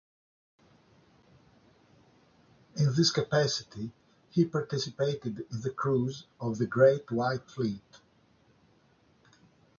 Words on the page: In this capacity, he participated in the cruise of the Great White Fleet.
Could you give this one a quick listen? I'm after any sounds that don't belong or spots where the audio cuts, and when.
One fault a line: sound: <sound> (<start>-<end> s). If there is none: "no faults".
no faults